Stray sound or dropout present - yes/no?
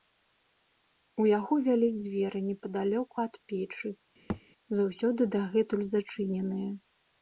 yes